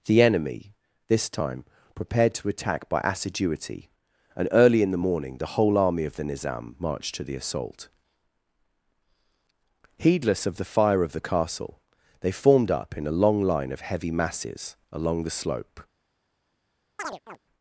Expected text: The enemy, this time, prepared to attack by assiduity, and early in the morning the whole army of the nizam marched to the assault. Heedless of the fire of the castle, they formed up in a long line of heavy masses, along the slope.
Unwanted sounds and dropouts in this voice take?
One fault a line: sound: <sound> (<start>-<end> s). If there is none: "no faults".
sound: chirp (17.0-17.4 s)